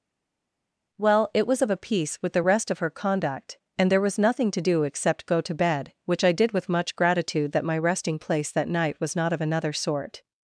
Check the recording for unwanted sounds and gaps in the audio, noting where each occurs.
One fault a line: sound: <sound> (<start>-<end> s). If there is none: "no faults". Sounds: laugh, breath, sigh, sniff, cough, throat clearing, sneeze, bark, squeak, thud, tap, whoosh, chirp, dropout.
no faults